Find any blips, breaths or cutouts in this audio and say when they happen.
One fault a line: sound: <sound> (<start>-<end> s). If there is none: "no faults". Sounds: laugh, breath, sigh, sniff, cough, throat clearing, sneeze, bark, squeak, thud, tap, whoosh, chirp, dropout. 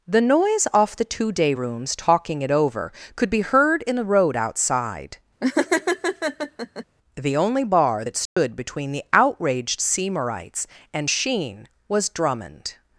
sound: laugh (5.4-6.8 s)
sound: dropout (8.3-8.4 s)